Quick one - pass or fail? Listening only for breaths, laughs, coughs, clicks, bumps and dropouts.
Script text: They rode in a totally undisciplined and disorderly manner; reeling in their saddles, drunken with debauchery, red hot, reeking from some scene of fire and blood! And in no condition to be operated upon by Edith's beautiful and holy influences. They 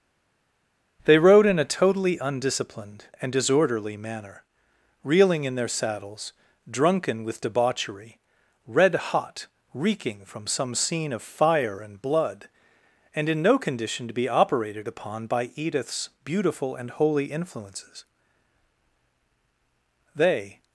pass